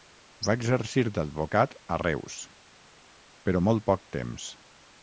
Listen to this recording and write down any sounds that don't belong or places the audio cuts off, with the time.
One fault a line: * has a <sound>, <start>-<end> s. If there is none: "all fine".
all fine